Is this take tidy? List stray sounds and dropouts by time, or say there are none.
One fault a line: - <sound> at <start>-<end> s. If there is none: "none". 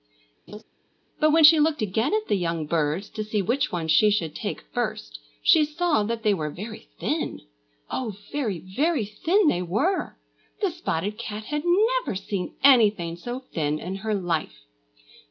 - laugh at 0.5-0.6 s